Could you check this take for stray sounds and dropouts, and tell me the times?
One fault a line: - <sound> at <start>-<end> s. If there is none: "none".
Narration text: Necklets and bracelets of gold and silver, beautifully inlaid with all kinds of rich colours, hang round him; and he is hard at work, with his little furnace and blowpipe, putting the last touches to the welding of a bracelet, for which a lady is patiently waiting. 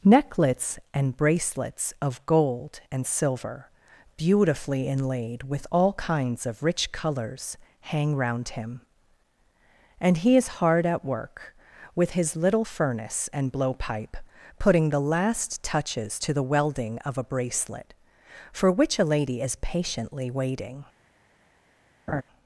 - laugh at 22.1-22.2 s